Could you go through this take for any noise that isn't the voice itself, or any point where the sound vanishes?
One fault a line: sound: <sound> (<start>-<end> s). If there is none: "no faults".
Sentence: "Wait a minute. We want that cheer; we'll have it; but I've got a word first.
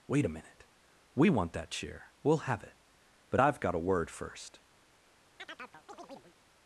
sound: chirp (5.4-6.4 s)